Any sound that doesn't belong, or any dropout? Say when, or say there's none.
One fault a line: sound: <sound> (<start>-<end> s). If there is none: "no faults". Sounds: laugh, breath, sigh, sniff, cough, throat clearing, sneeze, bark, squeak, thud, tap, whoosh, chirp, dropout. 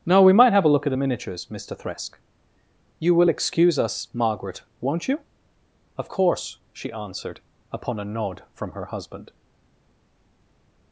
no faults